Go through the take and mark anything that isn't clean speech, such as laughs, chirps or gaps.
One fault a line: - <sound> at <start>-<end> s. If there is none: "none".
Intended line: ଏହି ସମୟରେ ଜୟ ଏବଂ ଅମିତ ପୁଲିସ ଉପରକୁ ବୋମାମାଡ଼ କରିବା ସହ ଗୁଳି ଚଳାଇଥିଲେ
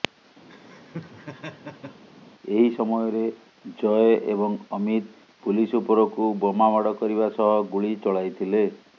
- laugh at 0.5-2.0 s